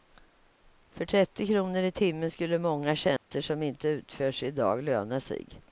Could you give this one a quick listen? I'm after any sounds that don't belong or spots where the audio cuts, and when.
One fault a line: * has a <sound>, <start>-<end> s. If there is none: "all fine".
* has a dropout, 3.2-3.3 s